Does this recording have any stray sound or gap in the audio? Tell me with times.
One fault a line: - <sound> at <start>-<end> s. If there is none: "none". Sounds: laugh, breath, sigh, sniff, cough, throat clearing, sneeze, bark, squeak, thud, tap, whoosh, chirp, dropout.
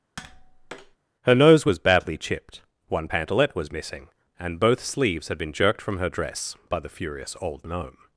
- tap at 0.2-1.0 s